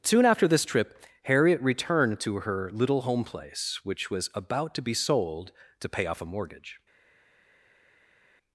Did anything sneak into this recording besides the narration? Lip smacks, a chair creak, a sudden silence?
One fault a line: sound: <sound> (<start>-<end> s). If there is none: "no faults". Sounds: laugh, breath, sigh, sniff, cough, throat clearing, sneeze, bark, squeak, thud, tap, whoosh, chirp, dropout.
no faults